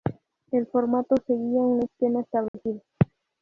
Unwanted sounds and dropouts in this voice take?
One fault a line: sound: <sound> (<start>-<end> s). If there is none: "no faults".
sound: dropout (2.5-2.5 s)